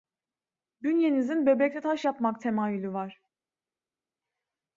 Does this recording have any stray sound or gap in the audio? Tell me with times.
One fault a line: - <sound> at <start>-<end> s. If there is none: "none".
none